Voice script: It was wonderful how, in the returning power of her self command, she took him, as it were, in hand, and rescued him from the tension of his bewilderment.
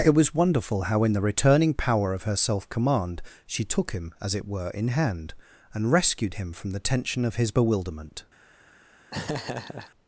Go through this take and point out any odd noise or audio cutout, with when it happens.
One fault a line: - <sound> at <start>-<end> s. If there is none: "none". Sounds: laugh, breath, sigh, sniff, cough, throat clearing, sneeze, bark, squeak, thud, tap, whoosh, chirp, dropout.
- laugh at 9.1-9.9 s